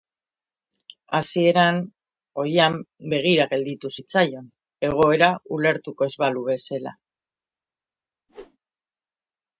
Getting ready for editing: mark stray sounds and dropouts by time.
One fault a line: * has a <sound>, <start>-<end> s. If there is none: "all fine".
* has a whoosh, 8.3-8.6 s